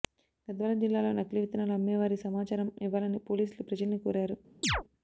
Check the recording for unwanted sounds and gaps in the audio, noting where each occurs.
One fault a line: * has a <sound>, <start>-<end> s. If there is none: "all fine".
* has a chirp, 4.6-4.8 s